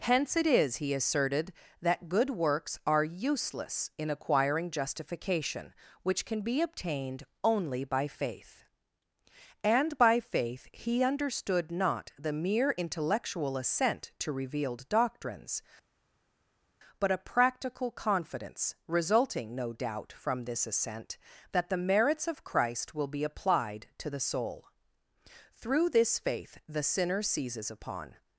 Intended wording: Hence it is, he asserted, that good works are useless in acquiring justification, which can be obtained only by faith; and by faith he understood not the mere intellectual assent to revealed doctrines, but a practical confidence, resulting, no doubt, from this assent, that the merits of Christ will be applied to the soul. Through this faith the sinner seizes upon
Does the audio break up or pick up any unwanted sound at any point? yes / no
no